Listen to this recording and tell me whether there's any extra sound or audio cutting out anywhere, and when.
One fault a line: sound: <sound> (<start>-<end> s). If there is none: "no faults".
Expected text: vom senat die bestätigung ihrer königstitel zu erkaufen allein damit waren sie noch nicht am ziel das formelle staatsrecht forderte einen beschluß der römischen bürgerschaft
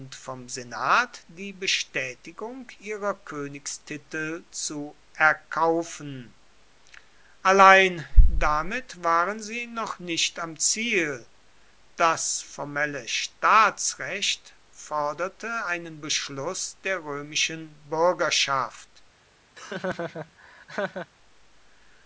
sound: laugh (19.5-21.1 s)